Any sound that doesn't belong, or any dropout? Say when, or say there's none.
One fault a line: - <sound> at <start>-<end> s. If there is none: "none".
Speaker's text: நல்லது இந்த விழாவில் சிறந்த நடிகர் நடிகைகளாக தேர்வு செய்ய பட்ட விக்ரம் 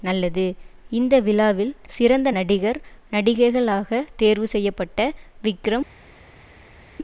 none